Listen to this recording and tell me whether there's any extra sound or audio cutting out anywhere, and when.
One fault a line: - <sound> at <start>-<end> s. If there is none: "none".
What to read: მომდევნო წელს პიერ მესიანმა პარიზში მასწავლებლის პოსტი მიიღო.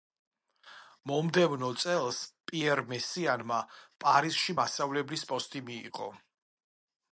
none